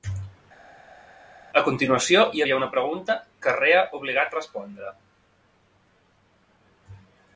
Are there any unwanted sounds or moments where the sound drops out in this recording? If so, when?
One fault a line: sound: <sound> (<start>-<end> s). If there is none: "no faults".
no faults